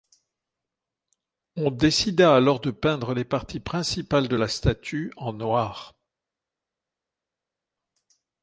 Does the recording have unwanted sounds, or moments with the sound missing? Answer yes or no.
no